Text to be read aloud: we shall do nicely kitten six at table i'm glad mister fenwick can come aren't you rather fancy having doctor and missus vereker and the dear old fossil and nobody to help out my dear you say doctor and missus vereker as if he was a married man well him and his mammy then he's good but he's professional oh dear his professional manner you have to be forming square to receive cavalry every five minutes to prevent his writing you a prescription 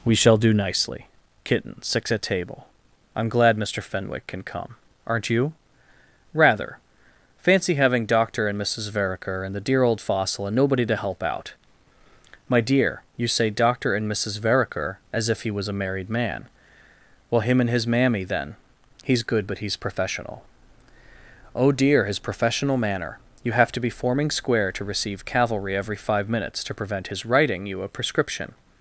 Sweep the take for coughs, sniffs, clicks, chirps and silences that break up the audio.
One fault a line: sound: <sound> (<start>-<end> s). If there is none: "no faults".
no faults